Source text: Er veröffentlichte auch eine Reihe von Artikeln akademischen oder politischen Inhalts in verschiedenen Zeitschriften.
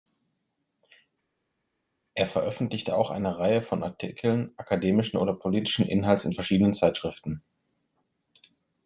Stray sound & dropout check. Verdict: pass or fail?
pass